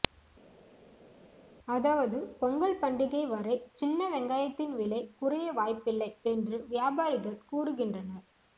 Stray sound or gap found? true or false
false